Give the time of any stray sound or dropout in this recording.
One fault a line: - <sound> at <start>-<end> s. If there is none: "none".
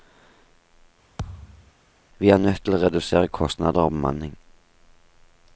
- thud at 1.2-1.7 s